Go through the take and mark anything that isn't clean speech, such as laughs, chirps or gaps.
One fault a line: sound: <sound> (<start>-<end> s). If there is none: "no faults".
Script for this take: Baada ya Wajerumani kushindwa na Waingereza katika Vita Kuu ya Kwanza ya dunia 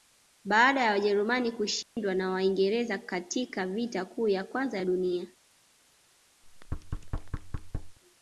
sound: dropout (1.8-2.0 s)
sound: thud (6.4-8.0 s)